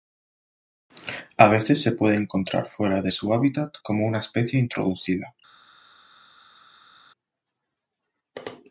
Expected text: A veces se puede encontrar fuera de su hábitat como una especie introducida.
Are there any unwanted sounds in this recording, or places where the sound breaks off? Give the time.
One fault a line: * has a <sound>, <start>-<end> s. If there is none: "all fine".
all fine